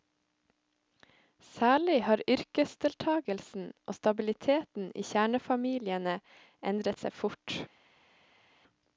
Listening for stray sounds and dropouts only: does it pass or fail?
pass